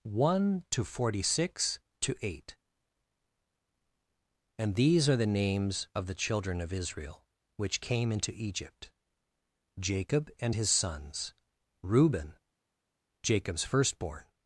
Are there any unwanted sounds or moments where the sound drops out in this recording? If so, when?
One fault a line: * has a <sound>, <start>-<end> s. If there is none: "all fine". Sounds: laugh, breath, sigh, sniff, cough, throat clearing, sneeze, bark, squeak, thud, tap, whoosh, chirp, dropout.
all fine